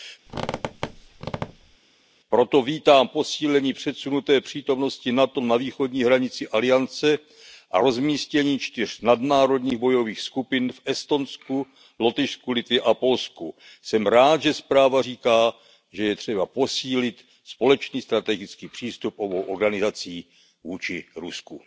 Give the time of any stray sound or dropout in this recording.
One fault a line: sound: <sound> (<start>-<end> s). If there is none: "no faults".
sound: squeak (0.3-1.8 s)